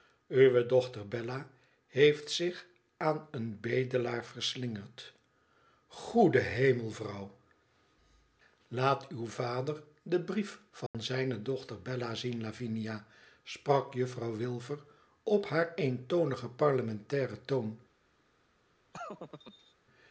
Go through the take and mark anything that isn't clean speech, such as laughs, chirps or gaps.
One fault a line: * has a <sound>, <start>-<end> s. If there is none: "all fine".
* has a dropout, 10.9-10.9 s
* has a laugh, 18.9-19.7 s